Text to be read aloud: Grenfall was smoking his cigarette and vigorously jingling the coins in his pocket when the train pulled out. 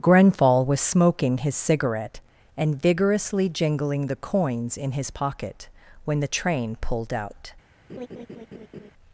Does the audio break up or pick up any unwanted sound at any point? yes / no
yes